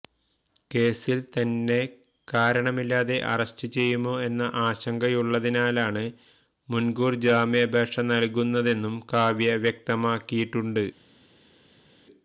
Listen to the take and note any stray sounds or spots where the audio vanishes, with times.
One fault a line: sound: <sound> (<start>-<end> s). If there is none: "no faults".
no faults